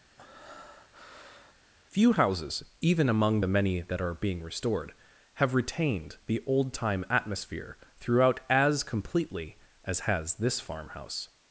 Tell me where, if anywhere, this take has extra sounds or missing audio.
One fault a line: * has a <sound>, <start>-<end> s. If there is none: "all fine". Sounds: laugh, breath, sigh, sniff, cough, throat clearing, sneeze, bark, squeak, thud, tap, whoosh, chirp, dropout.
* has a breath, 0.2-1.6 s